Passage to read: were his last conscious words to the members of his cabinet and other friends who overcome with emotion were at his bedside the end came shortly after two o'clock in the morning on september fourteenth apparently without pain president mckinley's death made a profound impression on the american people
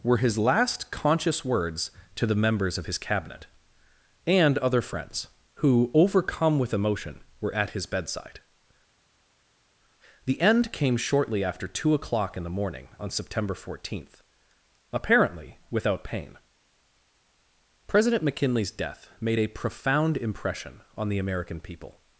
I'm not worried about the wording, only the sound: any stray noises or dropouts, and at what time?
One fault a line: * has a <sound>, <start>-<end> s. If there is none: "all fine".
all fine